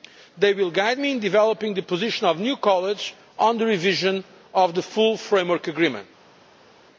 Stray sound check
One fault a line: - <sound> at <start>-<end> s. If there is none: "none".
none